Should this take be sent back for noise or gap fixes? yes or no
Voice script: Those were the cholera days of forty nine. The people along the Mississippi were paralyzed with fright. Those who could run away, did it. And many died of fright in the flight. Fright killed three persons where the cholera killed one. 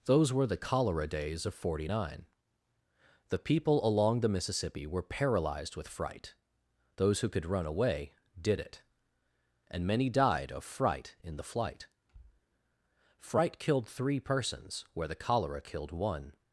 no